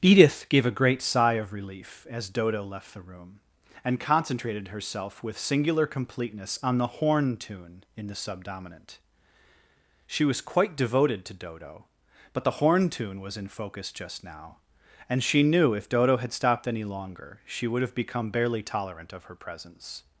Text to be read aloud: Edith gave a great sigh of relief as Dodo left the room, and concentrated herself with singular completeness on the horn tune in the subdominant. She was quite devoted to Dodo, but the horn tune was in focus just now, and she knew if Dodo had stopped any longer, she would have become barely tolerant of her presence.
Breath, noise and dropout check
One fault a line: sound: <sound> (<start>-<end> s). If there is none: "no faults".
no faults